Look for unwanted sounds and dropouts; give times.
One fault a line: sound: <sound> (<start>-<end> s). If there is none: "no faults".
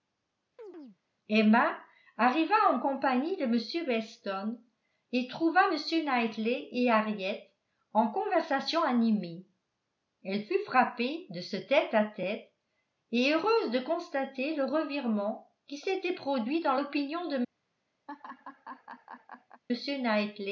sound: chirp (0.6-1.0 s)
sound: laugh (18.1-19.6 s)